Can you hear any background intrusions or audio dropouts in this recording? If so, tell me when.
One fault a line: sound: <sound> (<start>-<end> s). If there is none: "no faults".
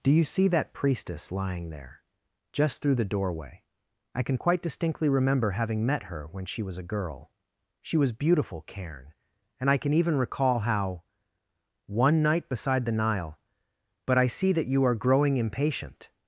no faults